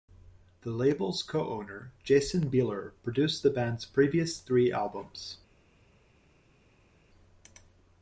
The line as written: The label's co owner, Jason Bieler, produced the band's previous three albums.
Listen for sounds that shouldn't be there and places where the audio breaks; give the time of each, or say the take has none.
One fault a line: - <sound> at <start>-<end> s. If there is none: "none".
none